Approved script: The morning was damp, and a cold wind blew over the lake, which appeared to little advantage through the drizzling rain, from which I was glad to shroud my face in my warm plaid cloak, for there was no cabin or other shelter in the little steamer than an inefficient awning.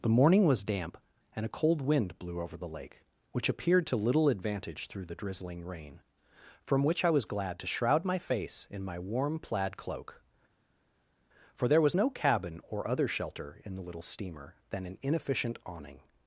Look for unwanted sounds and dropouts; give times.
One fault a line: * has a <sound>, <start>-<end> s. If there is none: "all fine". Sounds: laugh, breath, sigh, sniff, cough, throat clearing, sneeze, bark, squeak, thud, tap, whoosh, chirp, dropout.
all fine